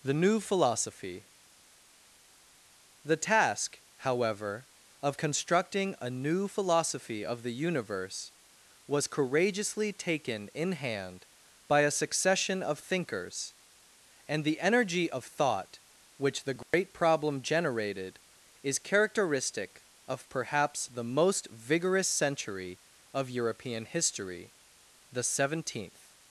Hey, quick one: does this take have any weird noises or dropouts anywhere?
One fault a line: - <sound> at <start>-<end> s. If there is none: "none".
- dropout at 16.6-16.7 s